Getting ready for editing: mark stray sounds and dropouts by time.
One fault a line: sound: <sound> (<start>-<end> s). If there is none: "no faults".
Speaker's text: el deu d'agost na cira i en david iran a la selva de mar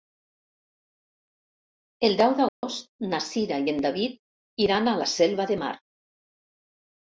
sound: dropout (2.5-2.6 s)